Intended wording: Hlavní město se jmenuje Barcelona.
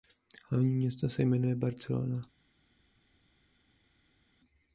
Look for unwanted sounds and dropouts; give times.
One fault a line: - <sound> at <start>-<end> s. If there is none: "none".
none